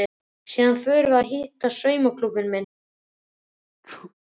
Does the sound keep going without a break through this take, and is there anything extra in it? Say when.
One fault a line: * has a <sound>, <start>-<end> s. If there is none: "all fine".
* has a sneeze, 3.8-4.1 s